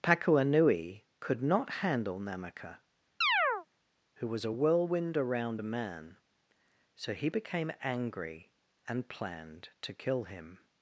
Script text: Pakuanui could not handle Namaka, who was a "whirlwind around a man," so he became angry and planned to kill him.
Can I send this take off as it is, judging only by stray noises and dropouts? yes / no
no